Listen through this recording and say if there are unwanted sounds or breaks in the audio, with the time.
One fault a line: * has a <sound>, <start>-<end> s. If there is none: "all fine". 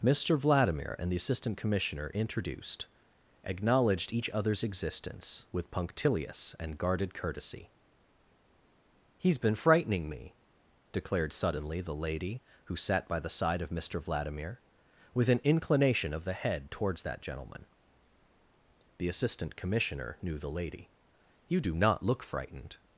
all fine